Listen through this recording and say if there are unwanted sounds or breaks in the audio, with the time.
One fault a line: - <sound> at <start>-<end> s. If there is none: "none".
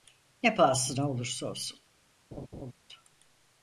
- laugh at 2.3-2.7 s